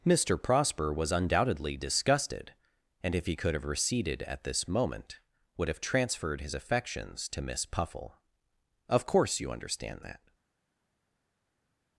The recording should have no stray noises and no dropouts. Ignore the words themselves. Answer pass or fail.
pass